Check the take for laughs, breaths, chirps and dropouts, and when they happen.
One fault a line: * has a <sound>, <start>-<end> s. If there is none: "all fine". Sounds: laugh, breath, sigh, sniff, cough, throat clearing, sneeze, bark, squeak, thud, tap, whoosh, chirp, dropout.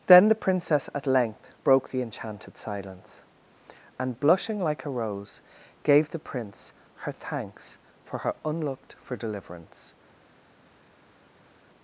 all fine